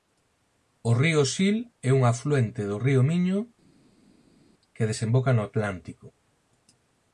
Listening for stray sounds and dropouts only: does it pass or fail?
pass